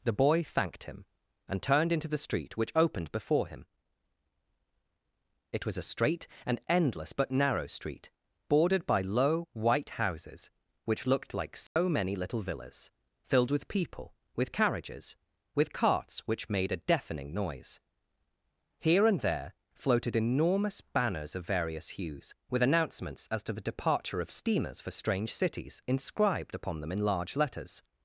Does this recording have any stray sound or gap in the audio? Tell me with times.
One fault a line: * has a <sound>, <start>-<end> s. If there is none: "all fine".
* has a dropout, 11.7-11.8 s